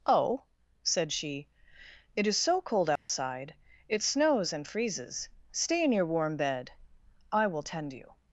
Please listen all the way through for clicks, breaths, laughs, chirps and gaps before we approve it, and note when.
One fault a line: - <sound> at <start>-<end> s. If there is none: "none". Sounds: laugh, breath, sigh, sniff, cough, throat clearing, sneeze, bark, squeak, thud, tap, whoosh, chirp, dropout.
- dropout at 3.0-3.1 s